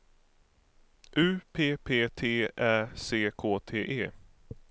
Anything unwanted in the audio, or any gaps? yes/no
no